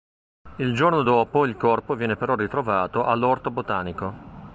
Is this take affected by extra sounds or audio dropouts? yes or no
no